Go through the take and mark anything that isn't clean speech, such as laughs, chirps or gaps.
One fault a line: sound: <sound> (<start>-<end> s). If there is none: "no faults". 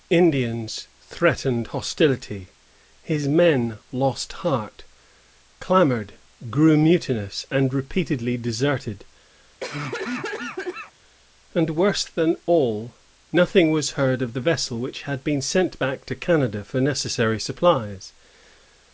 sound: cough (9.6-10.9 s)